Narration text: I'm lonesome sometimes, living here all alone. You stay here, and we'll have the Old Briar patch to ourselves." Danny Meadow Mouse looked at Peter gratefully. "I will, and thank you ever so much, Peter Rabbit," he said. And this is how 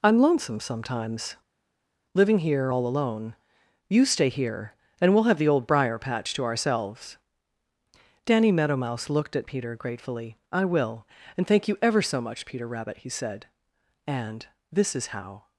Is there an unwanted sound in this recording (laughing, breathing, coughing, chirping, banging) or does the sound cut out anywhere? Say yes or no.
no